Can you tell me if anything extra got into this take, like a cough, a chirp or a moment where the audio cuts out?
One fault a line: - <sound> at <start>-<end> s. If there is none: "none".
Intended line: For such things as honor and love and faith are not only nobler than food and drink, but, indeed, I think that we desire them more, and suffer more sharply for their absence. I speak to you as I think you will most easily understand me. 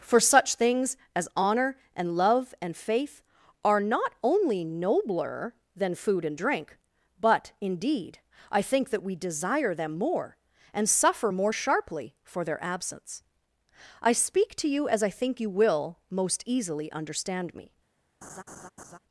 - laugh at 18.2-19.0 s